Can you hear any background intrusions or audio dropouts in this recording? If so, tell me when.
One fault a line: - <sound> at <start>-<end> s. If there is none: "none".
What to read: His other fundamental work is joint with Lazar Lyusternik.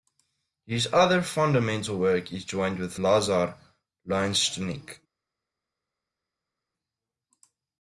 none